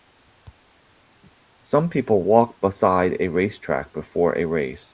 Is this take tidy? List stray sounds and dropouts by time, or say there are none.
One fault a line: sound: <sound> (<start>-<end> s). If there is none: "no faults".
no faults